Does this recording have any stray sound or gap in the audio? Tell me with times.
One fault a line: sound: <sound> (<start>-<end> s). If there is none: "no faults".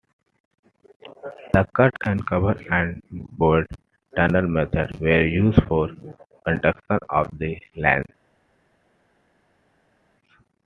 no faults